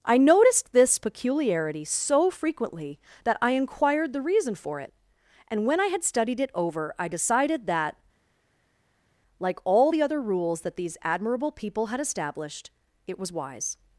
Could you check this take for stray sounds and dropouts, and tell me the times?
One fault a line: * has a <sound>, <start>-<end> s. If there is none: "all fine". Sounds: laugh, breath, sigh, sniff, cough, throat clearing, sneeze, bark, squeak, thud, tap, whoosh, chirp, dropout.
all fine